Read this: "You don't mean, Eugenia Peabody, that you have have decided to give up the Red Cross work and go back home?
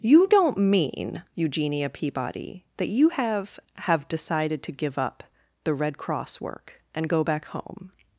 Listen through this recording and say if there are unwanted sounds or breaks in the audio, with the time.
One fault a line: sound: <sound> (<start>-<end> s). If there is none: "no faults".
no faults